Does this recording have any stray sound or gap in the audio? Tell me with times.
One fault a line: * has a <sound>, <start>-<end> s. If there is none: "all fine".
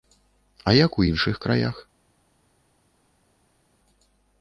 all fine